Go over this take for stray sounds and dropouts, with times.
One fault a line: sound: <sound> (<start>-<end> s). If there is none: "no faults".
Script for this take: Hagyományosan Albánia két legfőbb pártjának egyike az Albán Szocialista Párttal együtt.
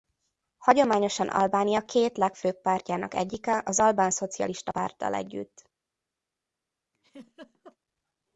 sound: laugh (6.9-7.8 s)